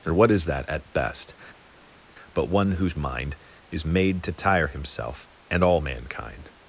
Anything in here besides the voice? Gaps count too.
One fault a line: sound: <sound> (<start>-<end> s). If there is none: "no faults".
no faults